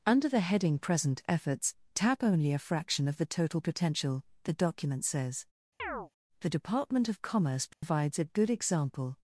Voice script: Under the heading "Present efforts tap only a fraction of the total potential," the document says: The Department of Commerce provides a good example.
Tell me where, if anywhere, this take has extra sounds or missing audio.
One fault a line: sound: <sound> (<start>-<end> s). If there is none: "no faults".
sound: chirp (5.8-6.1 s)
sound: dropout (7.7-7.8 s)